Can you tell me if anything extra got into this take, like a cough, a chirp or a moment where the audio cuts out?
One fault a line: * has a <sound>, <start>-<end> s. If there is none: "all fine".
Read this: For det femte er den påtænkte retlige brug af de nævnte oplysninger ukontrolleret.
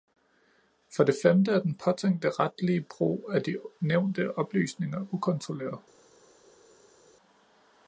all fine